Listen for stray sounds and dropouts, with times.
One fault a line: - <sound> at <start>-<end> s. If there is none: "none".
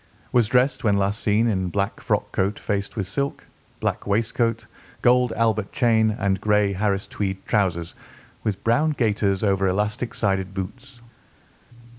none